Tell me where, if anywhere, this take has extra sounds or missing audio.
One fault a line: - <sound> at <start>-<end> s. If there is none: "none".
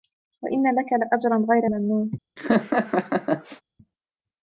- laugh at 2.4-3.6 s